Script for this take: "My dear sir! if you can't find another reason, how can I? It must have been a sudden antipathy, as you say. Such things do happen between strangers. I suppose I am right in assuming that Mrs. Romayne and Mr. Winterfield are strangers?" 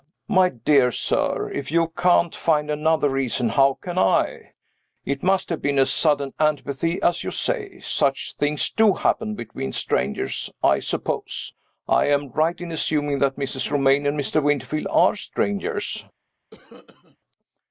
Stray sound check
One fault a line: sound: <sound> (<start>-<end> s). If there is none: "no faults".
sound: cough (16.5-17.2 s)